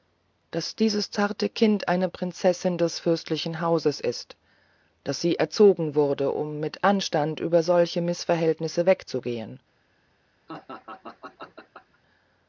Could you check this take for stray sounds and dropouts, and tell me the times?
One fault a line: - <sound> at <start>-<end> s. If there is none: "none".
- laugh at 10.5-12.0 s